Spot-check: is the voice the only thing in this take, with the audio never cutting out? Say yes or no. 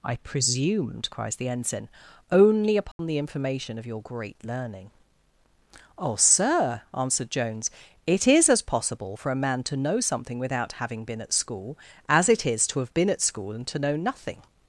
no